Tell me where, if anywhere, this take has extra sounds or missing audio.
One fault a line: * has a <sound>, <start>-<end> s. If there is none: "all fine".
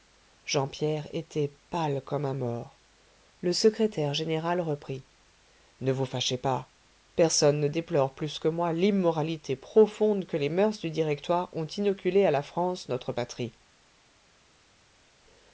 all fine